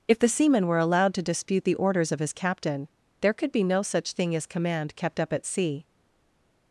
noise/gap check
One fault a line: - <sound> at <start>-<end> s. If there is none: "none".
none